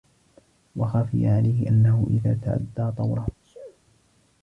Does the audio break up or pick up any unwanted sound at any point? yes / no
yes